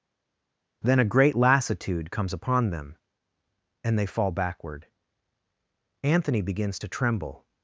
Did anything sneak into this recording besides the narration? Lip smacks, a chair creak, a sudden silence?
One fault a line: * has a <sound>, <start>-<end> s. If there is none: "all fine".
all fine